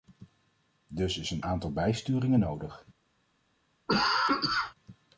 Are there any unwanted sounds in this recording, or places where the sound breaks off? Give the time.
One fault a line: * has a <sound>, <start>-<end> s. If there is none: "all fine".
* has a cough, 3.9-4.7 s